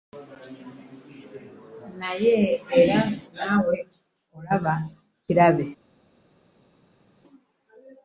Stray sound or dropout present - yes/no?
no